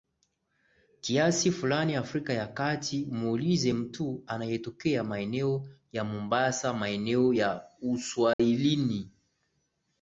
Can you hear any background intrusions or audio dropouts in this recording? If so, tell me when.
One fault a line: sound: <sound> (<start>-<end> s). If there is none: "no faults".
sound: dropout (8.3-8.4 s)